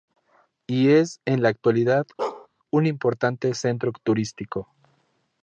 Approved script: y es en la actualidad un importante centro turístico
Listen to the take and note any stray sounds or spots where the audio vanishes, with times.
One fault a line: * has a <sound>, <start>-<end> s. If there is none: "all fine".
* has a bark, 2.2-2.5 s